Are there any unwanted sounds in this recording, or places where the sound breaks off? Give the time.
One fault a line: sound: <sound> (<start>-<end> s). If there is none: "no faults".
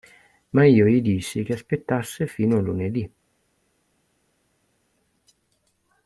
no faults